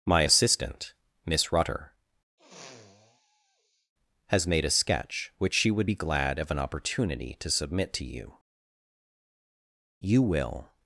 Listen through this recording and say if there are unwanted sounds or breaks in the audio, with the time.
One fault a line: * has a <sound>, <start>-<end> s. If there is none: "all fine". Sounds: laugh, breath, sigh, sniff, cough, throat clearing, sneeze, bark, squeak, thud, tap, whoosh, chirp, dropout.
* has a sniff, 2.4-3.9 s